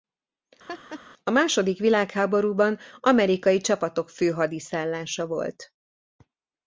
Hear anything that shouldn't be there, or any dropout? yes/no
yes